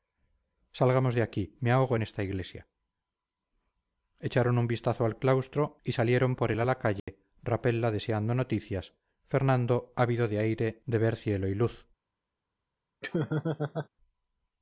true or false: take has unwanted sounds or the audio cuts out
true